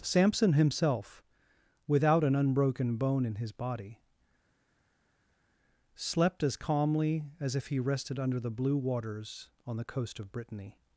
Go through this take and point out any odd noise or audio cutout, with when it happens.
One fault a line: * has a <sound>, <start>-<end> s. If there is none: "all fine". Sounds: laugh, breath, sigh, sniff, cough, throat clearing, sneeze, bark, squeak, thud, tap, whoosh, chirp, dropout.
all fine